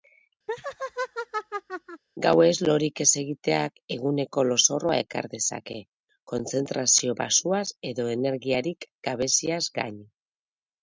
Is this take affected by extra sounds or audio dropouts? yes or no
yes